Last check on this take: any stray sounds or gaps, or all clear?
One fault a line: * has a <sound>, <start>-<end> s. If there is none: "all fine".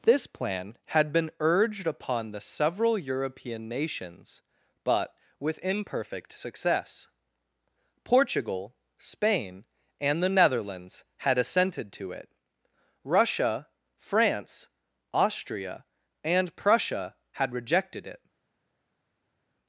all fine